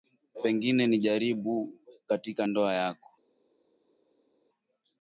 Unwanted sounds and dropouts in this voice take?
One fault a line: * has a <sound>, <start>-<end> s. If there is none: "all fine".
all fine